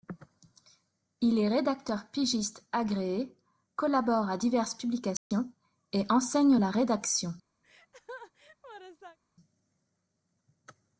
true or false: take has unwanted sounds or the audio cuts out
true